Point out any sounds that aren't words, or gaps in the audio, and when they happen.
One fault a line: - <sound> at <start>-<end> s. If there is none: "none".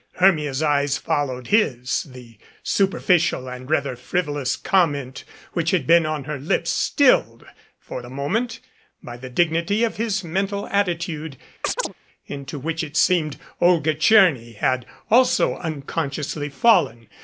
- chirp at 11.6-11.9 s